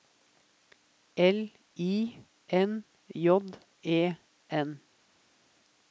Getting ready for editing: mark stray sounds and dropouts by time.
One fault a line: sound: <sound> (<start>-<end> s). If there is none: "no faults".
no faults